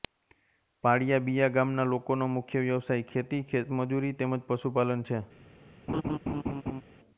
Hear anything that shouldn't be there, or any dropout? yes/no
yes